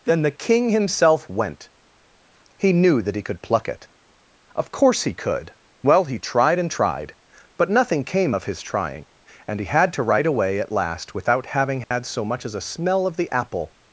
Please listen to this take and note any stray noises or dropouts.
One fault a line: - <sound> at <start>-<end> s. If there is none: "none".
- dropout at 11.8-11.9 s